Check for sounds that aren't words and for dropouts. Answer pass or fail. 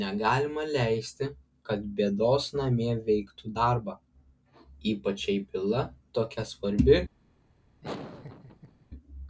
fail